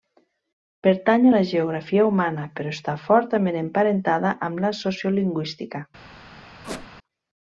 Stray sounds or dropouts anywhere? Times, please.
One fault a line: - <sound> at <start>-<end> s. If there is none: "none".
- squeak at 6.6-6.9 s